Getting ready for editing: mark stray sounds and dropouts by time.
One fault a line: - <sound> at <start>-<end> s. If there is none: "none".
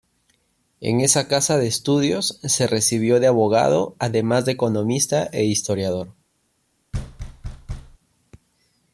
- thud at 6.9-8.0 s